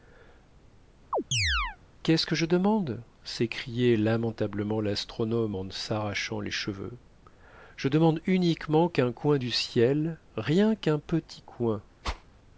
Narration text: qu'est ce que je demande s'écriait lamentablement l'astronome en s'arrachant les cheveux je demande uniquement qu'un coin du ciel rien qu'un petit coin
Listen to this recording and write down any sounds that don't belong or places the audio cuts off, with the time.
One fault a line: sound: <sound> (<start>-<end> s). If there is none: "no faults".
sound: chirp (1.1-1.8 s)
sound: whoosh (12.0-12.2 s)